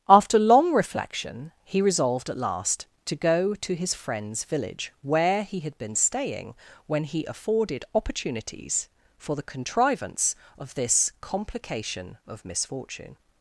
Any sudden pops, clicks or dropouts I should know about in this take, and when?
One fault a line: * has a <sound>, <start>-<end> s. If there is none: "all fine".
all fine